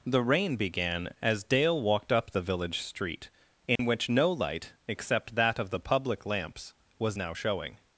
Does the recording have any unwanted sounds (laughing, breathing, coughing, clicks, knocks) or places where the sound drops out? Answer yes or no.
yes